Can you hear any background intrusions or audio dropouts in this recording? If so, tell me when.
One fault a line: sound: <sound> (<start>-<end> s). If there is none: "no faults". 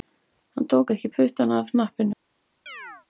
sound: chirp (2.7-3.1 s)